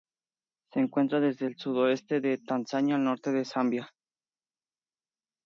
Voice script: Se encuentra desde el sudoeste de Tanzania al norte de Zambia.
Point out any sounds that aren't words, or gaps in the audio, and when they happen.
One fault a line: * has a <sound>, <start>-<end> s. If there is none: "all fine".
all fine